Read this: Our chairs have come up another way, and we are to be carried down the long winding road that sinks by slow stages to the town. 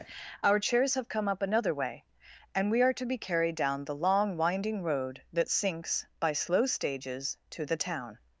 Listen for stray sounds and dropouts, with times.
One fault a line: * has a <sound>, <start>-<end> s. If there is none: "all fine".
all fine